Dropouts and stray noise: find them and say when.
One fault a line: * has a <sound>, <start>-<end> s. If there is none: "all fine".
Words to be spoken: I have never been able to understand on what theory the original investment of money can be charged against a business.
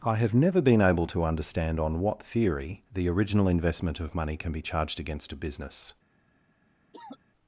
* has a cough, 6.9-7.2 s